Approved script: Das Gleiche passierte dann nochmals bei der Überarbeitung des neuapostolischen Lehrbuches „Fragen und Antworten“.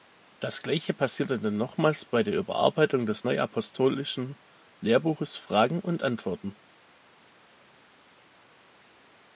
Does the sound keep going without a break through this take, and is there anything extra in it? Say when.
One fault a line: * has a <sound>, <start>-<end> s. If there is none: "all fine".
all fine